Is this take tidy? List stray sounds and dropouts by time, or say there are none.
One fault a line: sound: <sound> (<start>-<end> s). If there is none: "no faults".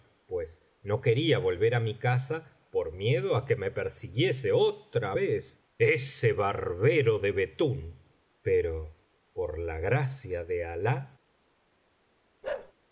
sound: bark (12.4-12.7 s)